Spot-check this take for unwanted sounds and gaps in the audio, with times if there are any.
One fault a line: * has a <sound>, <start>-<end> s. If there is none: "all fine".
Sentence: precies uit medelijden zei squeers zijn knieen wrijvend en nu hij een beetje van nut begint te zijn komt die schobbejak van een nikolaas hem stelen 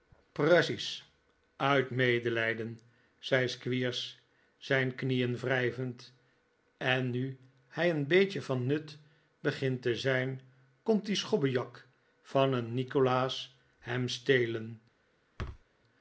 * has a thud, 15.4-15.6 s